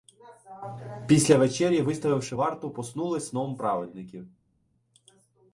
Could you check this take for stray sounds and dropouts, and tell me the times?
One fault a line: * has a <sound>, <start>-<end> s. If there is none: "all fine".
all fine